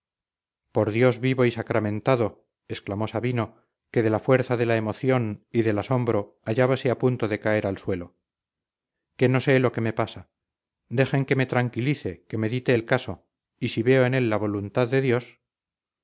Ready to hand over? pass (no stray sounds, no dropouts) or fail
pass